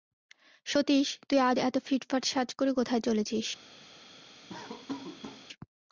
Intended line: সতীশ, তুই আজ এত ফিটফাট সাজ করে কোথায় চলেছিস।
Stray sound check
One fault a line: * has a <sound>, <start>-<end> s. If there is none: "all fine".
* has a laugh, 4.5-5.5 s